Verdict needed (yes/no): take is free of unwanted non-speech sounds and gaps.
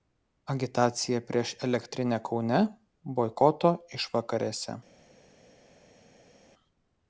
yes